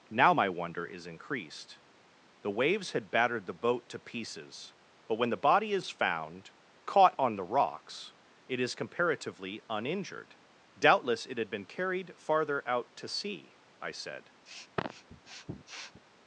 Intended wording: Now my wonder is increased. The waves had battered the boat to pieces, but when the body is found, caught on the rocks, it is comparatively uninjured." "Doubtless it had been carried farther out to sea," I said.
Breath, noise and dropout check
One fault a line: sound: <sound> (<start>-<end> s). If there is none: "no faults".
sound: sniff (14.5-16.0 s)